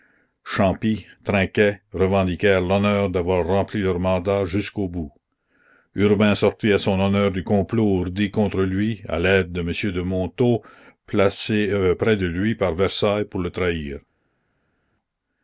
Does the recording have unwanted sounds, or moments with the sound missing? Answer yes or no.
no